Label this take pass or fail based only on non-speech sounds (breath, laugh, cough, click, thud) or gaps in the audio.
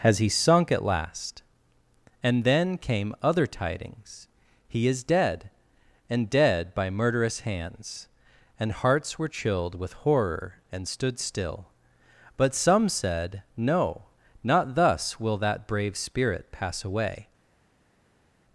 pass